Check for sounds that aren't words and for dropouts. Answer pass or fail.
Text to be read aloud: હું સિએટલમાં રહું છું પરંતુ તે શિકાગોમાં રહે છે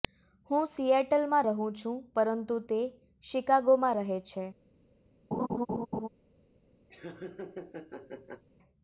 fail